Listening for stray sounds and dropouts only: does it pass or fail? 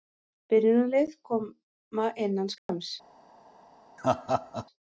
fail